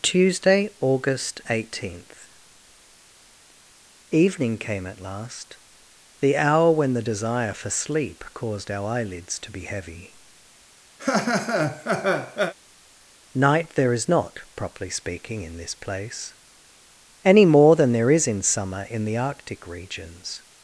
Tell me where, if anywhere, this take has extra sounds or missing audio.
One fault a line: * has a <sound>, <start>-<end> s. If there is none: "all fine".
* has a laugh, 11.0-12.5 s